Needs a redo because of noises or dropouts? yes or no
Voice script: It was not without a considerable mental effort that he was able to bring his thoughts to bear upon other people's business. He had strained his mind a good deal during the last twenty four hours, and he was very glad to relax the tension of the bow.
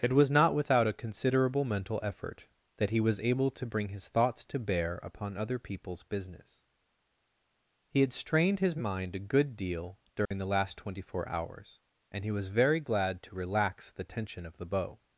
yes